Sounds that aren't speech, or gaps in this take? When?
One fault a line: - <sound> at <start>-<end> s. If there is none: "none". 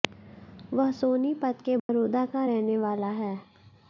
- dropout at 1.8-1.9 s